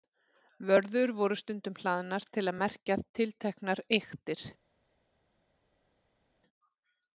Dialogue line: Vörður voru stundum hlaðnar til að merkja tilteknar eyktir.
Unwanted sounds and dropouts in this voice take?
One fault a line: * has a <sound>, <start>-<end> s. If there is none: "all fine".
all fine